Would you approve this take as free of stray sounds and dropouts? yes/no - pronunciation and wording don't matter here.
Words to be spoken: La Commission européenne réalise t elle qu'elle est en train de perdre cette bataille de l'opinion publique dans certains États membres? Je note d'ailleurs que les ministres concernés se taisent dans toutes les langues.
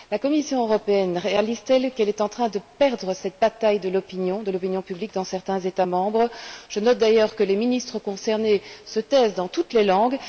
yes